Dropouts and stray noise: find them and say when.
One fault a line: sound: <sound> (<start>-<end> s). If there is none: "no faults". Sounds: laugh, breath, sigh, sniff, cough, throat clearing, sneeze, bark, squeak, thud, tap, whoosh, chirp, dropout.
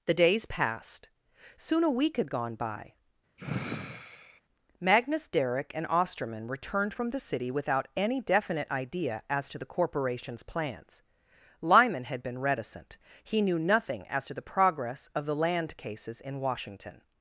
sound: sigh (3.4-4.4 s)